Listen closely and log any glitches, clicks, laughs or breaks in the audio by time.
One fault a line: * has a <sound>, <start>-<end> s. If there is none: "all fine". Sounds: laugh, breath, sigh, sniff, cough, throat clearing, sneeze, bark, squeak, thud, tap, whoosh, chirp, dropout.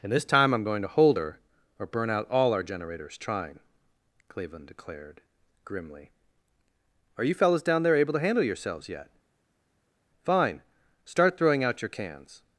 all fine